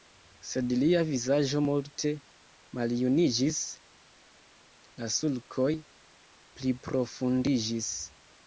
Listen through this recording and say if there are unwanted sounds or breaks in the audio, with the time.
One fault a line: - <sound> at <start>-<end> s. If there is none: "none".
none